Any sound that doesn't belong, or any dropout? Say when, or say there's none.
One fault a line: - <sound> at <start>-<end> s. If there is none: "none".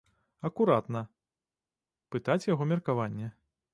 none